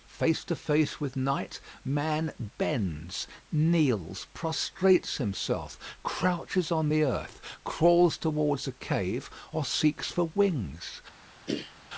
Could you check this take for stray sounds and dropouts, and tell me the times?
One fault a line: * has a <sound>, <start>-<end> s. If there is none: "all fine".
* has a throat clearing, 11.5-11.7 s